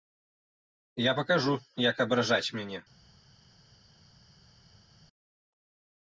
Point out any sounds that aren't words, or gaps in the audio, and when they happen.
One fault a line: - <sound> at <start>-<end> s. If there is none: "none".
none